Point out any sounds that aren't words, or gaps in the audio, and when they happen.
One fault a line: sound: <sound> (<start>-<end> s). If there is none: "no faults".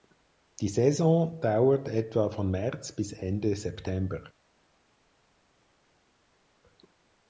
no faults